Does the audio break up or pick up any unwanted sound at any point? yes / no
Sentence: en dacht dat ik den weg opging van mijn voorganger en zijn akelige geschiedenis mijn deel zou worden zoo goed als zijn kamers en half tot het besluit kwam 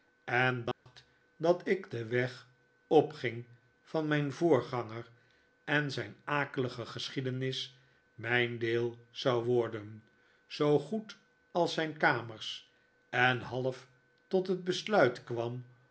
yes